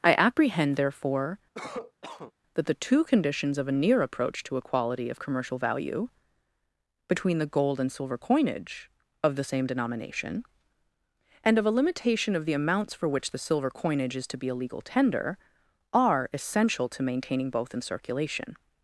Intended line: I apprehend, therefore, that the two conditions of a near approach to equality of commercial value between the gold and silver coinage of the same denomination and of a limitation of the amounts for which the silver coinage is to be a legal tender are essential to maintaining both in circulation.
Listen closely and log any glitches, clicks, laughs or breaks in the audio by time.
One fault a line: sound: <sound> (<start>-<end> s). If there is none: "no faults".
sound: cough (1.5-2.3 s)